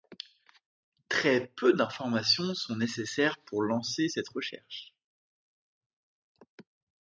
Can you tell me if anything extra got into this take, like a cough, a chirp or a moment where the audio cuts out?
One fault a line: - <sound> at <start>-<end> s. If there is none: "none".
none